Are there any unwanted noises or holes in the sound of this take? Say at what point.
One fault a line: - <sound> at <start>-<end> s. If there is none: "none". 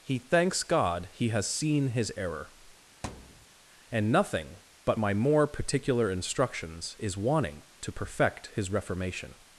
- thud at 3.0-3.5 s